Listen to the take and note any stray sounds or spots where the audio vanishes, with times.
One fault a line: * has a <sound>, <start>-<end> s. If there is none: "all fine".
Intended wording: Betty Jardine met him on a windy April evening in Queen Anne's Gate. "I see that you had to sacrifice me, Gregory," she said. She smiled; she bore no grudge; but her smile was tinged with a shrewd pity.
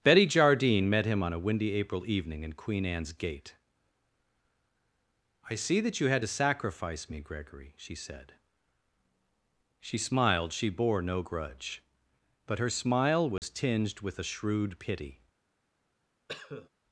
* has a dropout, 13.4-13.4 s
* has a cough, 16.3-16.7 s